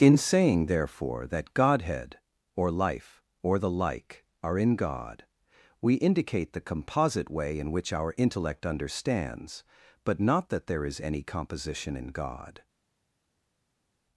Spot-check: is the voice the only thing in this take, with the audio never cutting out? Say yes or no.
yes